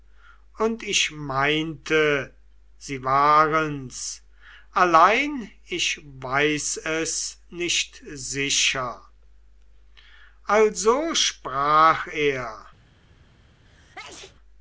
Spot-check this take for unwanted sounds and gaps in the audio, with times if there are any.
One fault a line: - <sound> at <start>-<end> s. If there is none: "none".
- sneeze at 13.6-14.3 s